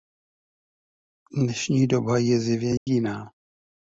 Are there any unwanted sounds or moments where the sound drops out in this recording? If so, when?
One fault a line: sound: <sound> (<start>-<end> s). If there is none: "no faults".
sound: dropout (2.8-2.9 s)